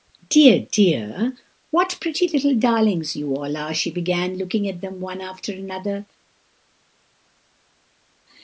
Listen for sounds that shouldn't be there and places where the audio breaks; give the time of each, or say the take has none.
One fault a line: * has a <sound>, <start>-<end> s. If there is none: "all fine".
all fine